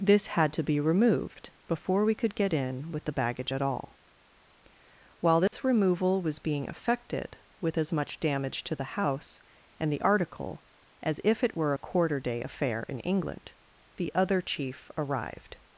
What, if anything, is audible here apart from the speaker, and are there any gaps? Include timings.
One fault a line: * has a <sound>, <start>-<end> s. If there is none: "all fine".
* has a dropout, 5.5-5.5 s